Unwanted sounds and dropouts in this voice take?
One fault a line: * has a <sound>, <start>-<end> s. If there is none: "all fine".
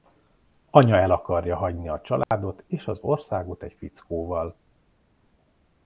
* has a dropout, 2.2-2.3 s